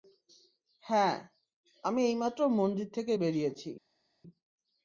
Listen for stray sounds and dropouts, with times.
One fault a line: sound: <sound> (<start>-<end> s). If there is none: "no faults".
no faults